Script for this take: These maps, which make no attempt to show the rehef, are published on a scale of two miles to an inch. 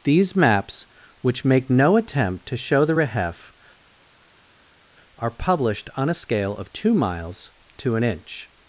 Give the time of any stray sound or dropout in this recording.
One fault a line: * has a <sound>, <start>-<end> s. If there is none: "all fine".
all fine